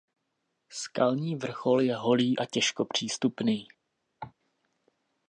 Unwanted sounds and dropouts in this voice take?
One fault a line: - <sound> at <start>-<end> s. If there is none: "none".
- cough at 4.2-4.3 s